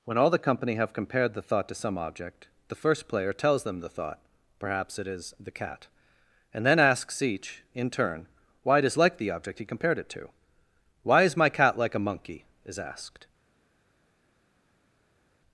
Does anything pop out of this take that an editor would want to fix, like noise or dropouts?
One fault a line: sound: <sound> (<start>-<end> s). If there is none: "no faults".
no faults